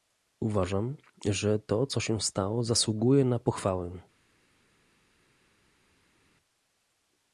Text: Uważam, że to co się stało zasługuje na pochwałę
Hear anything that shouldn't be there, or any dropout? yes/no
no